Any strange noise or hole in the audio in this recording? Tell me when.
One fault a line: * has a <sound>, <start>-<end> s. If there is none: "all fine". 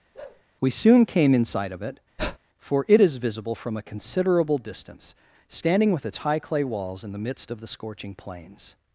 * has a bark, 0.1-0.4 s
* has a breath, 2.2-2.4 s